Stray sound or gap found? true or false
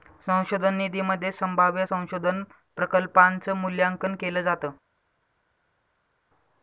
false